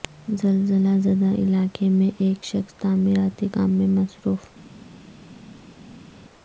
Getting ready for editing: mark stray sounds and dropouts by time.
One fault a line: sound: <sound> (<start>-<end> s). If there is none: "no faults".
no faults